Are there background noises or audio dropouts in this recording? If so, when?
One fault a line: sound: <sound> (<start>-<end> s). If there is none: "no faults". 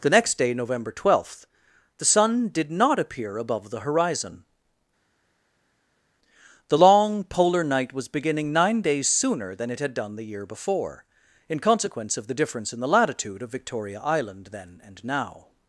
no faults